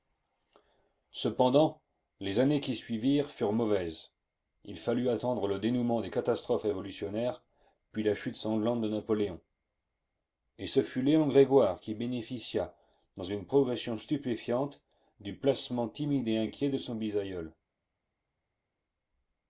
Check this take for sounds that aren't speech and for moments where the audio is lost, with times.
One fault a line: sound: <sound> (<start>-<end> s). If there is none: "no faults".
no faults